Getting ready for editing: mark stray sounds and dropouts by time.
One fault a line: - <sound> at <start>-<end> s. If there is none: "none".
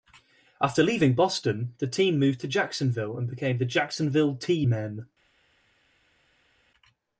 none